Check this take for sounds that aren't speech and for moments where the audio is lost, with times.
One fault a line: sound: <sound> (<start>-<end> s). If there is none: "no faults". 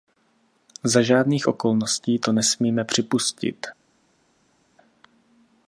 no faults